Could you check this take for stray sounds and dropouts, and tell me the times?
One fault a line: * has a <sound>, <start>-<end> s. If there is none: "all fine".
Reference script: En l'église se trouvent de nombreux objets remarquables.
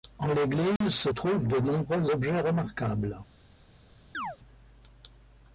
* has a dropout, 0.8-0.8 s
* has a chirp, 4.1-4.4 s